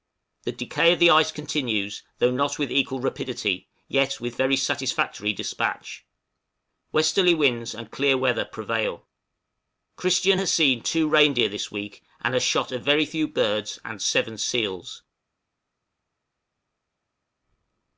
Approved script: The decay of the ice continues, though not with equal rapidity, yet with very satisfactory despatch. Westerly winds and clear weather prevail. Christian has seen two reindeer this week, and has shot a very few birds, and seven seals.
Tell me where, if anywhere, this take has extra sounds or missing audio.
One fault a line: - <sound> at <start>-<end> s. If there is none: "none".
none